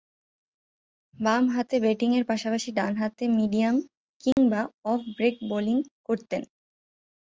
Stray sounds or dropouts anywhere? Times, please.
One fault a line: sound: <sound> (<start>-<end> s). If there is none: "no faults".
sound: dropout (4.3-4.4 s)